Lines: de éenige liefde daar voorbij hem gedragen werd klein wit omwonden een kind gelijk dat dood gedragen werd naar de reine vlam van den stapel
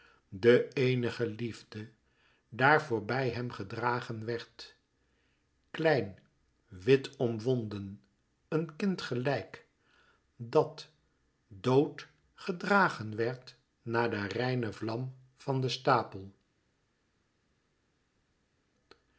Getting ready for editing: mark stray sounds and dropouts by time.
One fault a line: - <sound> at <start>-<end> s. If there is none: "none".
none